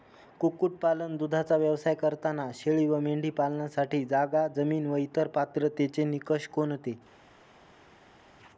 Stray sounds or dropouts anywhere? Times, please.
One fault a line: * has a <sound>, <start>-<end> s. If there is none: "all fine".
all fine